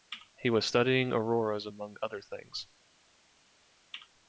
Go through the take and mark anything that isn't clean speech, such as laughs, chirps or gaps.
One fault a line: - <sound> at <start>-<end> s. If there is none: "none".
none